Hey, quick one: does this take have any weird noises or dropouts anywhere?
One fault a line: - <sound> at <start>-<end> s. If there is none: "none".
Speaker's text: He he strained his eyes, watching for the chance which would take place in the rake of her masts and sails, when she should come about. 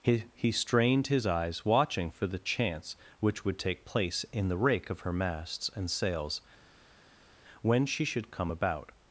none